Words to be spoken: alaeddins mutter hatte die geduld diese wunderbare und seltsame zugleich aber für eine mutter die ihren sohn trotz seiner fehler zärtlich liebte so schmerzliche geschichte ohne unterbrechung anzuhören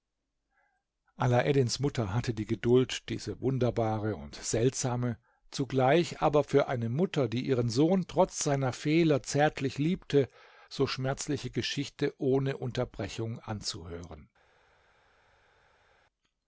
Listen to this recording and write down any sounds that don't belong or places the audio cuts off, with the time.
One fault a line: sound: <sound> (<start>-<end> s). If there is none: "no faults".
no faults